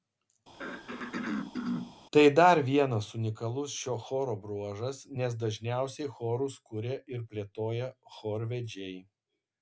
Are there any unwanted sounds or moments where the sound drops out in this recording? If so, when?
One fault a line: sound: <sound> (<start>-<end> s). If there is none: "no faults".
sound: throat clearing (0.5-2.0 s)